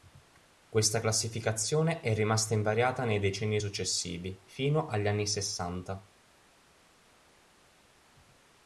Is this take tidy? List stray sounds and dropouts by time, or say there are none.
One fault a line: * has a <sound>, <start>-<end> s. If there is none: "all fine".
all fine